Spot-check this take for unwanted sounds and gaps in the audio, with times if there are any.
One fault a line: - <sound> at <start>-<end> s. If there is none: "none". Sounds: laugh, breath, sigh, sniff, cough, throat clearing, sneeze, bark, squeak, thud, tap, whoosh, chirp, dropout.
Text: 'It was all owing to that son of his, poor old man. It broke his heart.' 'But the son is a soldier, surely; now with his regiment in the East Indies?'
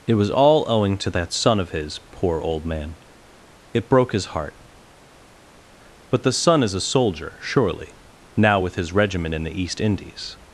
none